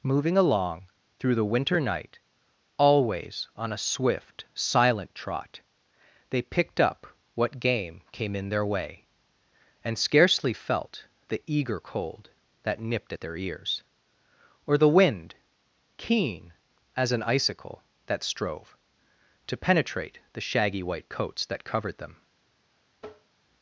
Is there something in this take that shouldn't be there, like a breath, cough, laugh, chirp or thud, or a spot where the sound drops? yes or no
yes